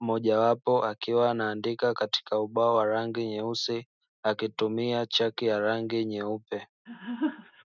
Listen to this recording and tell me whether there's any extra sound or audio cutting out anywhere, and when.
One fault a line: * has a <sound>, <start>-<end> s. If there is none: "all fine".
* has a laugh, 6.9-7.6 s